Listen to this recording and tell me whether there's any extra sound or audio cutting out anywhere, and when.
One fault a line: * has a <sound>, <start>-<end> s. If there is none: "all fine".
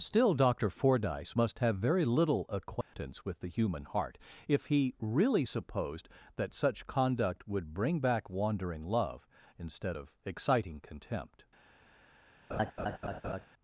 * has a dropout, 2.8-2.9 s
* has a laugh, 12.5-13.5 s